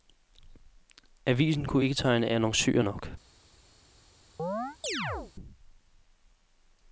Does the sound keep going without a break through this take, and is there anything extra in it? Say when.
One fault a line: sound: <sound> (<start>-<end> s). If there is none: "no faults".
sound: chirp (4.4-5.3 s)